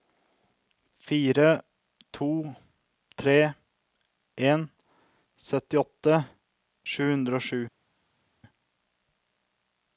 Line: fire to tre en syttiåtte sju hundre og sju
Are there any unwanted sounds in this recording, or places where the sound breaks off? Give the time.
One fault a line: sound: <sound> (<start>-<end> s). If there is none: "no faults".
no faults